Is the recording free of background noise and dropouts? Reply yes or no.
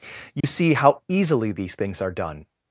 no